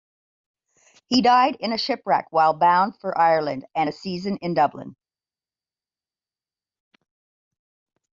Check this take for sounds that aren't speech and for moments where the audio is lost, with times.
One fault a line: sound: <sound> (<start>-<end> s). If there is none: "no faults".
no faults